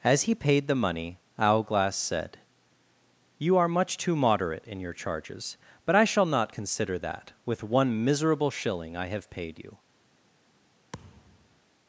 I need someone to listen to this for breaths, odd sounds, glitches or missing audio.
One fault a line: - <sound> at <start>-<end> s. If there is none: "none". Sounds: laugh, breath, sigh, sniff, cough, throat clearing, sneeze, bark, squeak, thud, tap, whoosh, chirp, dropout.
- thud at 10.9-11.6 s